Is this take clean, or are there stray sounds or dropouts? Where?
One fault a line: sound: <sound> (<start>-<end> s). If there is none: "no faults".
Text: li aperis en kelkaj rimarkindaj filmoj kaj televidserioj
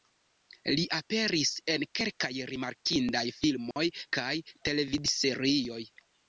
sound: dropout (3.7-3.8 s)